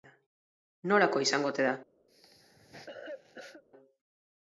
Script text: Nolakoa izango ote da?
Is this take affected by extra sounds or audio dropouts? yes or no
yes